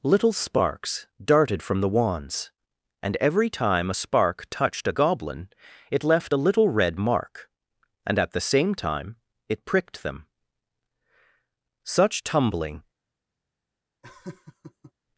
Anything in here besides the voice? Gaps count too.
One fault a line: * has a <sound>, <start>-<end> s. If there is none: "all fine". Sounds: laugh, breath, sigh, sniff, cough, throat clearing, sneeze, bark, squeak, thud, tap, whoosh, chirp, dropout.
* has a laugh, 14.0-14.9 s